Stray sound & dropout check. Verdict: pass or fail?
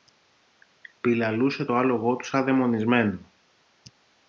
pass